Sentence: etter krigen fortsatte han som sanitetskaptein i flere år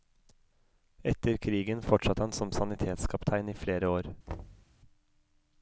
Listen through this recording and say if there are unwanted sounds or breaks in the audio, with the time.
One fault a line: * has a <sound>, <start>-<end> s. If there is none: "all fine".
* has a thud, 4.3-4.7 s